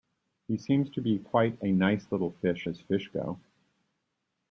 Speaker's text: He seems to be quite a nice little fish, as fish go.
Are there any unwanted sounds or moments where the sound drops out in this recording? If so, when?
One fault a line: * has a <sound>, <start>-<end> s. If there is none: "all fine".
all fine